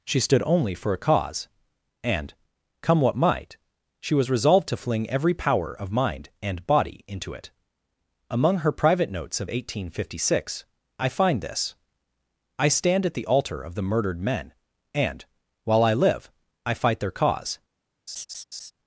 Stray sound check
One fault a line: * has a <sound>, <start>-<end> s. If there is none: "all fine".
* has a laugh, 18.1-18.7 s